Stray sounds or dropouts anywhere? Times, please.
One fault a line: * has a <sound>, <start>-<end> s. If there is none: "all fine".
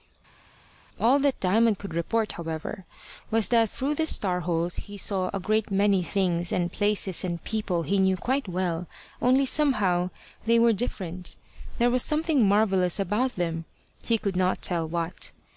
all fine